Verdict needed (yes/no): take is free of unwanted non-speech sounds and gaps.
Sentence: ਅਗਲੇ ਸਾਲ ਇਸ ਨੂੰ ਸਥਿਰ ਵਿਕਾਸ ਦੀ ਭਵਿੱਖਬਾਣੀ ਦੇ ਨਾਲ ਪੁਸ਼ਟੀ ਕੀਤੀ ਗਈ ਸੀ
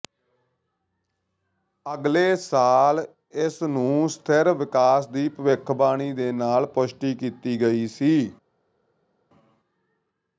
yes